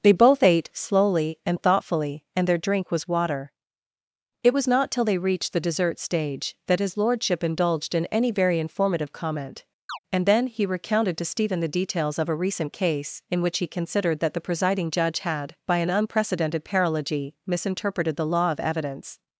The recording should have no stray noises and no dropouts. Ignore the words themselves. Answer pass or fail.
fail